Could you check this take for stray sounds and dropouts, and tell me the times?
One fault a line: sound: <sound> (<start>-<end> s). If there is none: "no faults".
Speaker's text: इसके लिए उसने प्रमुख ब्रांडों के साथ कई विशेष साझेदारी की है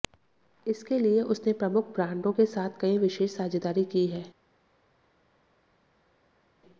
no faults